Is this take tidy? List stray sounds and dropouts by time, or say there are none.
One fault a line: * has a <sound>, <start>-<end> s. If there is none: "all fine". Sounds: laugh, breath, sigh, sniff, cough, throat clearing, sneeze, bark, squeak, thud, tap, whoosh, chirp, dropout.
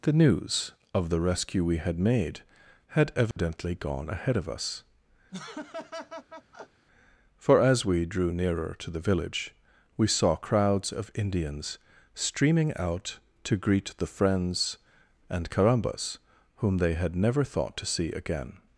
* has a dropout, 3.3-3.4 s
* has a laugh, 5.3-6.9 s